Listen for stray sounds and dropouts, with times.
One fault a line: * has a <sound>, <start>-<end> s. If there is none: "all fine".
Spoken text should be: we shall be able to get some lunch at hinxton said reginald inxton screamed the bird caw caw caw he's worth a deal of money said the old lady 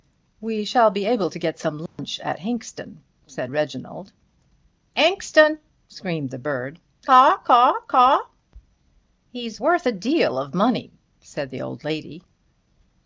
* has a dropout, 1.9-2.0 s